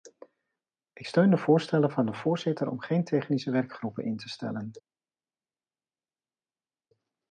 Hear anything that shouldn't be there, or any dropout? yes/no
no